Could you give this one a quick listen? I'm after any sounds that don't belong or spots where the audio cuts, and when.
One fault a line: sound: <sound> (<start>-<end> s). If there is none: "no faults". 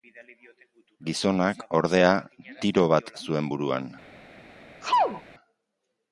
sound: sneeze (4.8-5.2 s)